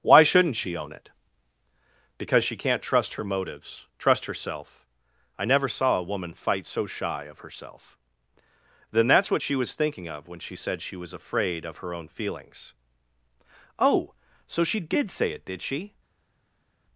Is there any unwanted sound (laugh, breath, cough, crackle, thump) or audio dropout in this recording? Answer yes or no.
no